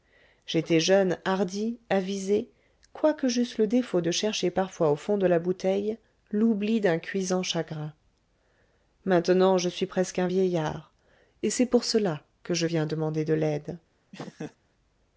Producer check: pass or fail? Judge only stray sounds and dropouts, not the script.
fail